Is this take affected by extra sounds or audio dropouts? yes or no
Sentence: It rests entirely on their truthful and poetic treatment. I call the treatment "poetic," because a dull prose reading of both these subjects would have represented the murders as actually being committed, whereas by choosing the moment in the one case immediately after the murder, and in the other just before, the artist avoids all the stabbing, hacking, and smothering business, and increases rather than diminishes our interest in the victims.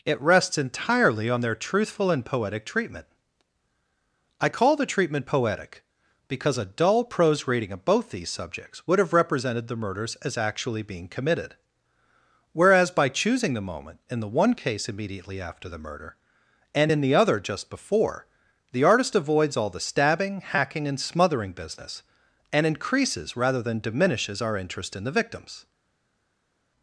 no